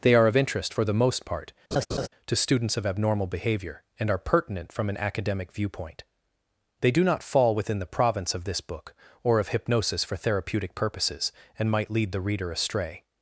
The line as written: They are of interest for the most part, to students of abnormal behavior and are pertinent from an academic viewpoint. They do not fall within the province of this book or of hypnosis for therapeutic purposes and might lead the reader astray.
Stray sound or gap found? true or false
true